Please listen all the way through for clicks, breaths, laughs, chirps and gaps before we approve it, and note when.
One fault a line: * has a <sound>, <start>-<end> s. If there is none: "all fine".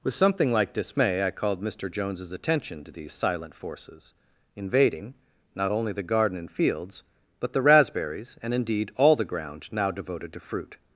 all fine